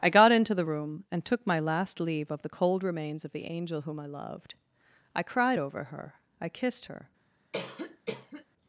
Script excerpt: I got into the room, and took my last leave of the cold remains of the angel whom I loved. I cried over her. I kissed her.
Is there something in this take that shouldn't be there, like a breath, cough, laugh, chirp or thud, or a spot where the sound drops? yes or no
yes